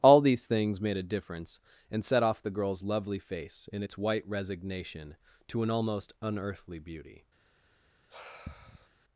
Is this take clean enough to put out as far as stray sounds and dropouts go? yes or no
no